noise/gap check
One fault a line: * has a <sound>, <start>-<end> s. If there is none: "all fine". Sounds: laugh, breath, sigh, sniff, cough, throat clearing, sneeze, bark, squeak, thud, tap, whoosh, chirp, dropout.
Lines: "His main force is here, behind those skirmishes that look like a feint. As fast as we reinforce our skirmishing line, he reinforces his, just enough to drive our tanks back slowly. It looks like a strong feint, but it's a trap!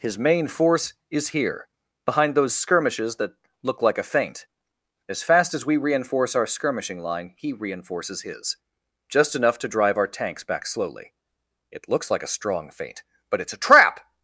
all fine